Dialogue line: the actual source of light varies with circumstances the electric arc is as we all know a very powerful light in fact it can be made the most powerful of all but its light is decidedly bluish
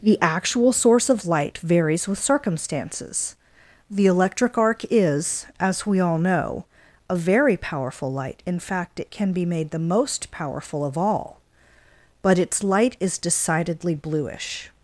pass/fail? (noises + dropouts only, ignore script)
pass